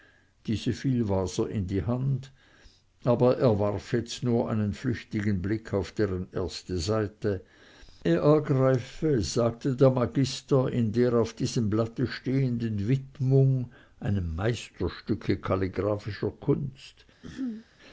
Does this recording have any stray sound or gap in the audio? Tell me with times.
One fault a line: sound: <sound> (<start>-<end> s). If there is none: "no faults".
sound: throat clearing (17.2-17.7 s)